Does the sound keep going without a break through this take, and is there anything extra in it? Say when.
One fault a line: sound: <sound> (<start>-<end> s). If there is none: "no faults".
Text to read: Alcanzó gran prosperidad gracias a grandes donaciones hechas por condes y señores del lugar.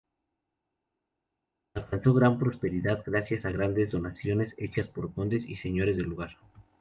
no faults